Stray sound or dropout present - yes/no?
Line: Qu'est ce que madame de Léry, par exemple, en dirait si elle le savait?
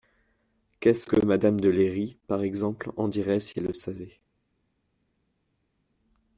no